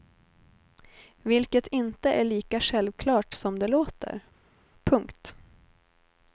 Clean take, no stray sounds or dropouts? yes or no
yes